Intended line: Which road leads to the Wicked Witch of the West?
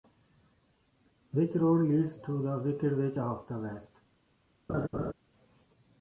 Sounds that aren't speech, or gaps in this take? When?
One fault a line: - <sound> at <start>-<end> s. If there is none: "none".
- laugh at 4.7-5.1 s